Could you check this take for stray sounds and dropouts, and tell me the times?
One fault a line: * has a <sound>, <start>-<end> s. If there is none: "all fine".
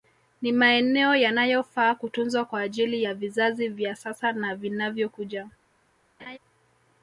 * has a laugh, 6.2-6.4 s